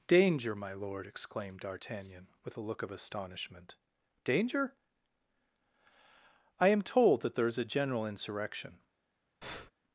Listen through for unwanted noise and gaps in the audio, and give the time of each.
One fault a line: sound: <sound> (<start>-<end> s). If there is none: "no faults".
sound: breath (9.4-9.7 s)